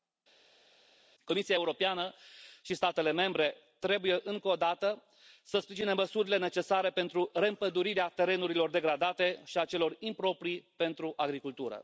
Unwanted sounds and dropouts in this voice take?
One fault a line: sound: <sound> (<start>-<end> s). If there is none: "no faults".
no faults